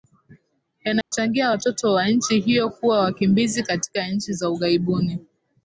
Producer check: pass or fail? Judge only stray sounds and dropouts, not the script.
fail